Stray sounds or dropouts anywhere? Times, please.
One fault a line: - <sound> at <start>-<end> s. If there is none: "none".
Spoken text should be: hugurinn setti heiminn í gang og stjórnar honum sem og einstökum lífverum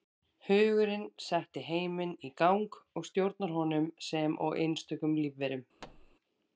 - thud at 5.8-6.2 s